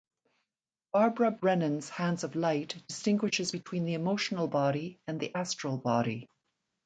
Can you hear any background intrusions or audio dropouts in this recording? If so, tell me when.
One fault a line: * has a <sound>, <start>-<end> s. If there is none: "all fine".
all fine